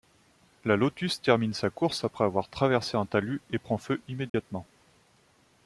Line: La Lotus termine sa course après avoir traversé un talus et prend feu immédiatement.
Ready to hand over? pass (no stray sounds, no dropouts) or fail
fail